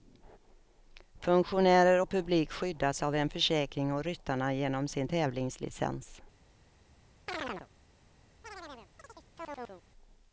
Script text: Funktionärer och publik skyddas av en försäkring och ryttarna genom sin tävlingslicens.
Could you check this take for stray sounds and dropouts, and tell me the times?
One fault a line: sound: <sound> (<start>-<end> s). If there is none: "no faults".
sound: chirp (7.3-7.7 s)
sound: chirp (8.4-9.8 s)